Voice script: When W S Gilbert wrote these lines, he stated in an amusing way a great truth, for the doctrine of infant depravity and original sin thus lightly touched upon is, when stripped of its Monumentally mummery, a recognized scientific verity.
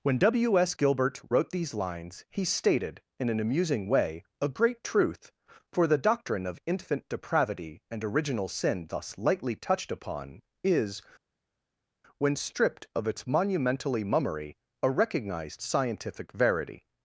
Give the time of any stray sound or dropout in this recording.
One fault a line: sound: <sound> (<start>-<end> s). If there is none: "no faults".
no faults